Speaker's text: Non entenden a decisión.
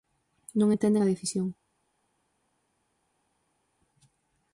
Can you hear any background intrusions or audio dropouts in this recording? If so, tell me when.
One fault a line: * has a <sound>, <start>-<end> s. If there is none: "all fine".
all fine